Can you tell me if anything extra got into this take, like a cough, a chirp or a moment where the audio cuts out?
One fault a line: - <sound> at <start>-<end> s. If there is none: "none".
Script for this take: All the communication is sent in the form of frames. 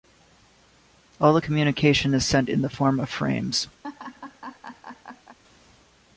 - laugh at 3.8-5.4 s